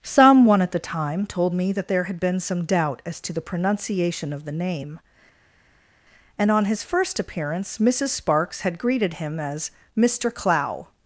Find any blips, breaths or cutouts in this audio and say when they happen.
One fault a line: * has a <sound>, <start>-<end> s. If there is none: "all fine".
all fine